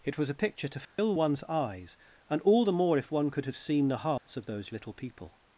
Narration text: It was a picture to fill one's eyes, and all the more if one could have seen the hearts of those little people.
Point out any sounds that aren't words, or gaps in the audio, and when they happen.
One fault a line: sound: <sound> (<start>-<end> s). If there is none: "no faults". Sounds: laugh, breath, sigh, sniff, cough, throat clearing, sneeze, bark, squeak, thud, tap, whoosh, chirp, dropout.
sound: dropout (0.8-1.0 s)
sound: dropout (4.2-4.3 s)